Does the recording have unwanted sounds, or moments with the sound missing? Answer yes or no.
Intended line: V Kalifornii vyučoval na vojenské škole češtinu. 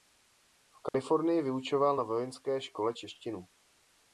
yes